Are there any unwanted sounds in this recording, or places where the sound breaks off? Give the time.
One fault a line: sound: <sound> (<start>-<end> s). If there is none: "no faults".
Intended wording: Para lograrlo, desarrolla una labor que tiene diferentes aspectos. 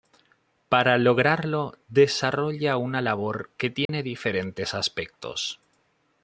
sound: dropout (3.9-3.9 s)